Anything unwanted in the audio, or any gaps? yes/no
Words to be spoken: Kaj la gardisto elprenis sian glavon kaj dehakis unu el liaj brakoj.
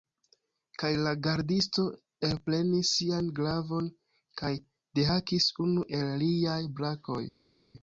no